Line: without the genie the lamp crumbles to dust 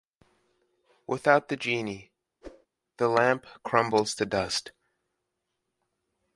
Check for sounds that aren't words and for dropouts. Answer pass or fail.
fail